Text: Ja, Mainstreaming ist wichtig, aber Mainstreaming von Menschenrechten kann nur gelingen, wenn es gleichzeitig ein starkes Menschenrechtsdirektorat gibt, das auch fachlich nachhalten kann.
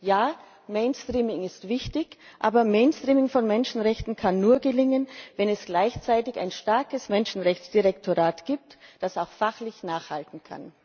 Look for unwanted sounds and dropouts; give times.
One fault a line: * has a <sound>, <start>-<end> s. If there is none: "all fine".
all fine